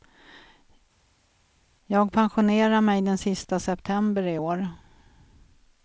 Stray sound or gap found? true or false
false